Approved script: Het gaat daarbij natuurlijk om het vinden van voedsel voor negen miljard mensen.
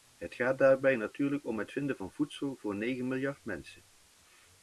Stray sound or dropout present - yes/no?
no